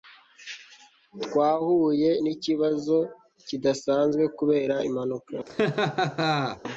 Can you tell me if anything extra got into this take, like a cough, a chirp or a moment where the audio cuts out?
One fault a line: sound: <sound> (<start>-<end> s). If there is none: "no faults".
sound: laugh (5.5-6.6 s)